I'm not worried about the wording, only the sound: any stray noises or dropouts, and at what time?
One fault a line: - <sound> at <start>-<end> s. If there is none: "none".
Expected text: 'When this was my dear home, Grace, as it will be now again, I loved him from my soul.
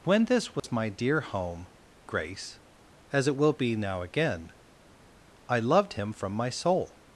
- dropout at 0.6-0.6 s